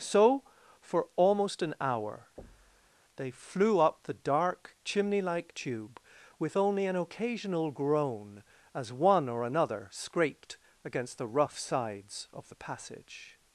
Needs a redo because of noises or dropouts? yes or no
yes